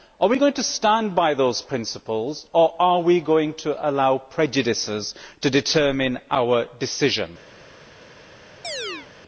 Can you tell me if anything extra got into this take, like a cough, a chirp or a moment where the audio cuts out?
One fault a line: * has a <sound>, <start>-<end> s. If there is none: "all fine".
* has a chirp, 8.6-9.1 s